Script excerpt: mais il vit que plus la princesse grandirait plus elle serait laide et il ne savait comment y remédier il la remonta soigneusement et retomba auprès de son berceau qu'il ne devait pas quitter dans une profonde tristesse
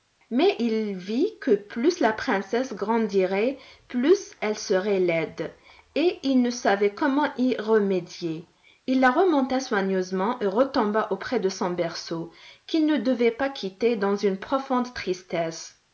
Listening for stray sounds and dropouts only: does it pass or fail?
pass